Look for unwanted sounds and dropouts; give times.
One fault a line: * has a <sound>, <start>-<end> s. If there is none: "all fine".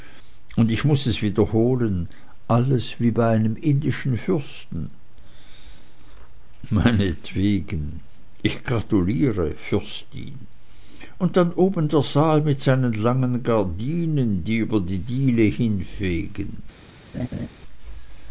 * has a laugh, 17.1-17.5 s